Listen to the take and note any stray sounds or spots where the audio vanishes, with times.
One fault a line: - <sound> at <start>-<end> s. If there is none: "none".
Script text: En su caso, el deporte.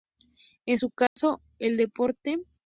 - dropout at 1.1-1.2 s